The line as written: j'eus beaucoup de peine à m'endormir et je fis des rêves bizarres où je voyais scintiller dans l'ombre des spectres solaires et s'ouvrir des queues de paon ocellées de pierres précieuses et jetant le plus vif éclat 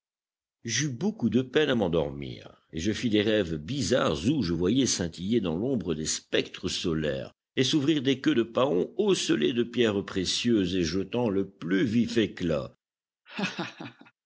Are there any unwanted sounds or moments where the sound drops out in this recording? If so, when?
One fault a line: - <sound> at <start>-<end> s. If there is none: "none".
- laugh at 13.3-14.1 s